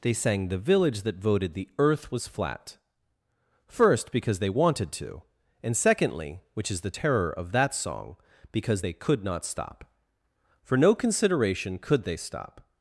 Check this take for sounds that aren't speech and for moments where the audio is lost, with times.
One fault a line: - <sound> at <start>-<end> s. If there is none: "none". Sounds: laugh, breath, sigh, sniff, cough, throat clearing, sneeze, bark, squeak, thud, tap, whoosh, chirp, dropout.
none